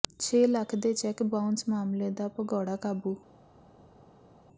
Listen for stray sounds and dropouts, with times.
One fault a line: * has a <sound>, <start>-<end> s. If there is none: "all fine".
all fine